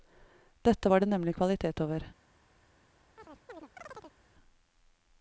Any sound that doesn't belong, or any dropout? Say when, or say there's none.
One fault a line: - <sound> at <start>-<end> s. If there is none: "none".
- chirp at 3.2-4.2 s